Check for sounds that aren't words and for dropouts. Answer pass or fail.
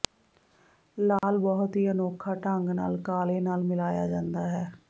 fail